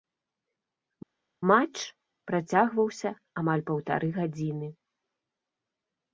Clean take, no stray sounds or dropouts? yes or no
yes